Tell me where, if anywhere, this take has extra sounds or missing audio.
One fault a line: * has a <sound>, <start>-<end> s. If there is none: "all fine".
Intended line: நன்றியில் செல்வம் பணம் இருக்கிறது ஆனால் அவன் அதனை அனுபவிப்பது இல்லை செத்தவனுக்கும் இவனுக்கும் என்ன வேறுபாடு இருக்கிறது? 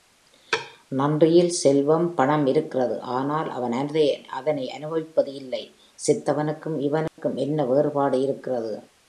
* has a dropout, 7.1-7.2 s